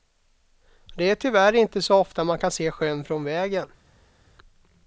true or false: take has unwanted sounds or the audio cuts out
false